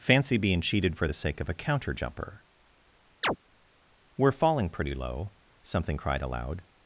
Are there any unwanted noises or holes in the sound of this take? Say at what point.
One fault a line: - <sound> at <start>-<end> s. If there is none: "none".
- chirp at 3.2-3.4 s